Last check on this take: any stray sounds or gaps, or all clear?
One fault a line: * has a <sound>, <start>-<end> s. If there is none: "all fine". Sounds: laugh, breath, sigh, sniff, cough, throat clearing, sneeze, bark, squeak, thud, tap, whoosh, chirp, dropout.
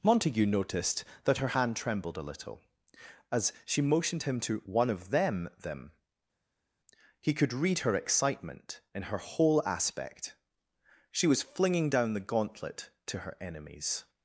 all fine